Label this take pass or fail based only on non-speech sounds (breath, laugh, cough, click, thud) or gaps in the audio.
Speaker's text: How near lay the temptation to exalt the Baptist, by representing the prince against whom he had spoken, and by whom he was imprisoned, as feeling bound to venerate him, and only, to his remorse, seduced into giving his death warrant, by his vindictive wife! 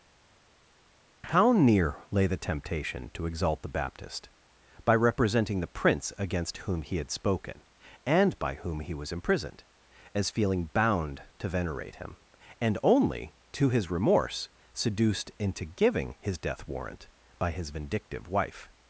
pass